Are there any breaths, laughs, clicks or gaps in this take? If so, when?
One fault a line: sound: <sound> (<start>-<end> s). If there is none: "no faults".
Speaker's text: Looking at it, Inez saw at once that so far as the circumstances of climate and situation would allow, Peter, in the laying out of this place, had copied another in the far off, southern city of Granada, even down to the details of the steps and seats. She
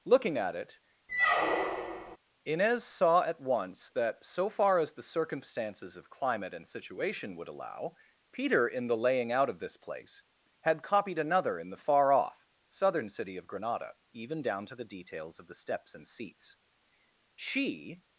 sound: squeak (1.1-2.2 s)